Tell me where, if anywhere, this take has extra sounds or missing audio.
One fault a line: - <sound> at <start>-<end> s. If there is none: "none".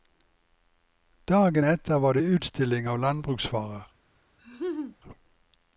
- laugh at 4.4-5.0 s